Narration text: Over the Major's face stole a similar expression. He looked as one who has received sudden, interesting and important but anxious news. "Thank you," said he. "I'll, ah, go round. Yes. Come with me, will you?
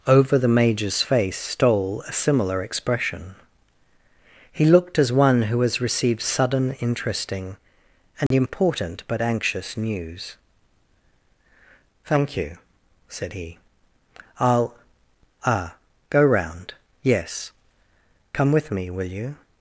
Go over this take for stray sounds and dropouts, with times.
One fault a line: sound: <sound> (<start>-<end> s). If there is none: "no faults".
sound: dropout (8.3-8.3 s)